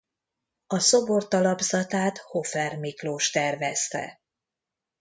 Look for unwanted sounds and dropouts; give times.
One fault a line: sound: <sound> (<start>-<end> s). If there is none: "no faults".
no faults